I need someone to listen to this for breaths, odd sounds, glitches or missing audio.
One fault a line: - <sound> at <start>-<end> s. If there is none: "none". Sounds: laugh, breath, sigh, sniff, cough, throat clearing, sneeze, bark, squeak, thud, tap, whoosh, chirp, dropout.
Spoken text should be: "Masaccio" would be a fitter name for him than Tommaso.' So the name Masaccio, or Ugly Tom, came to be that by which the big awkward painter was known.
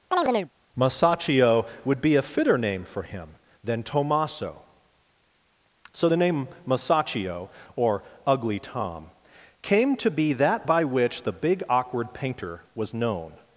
- chirp at 0.1-0.5 s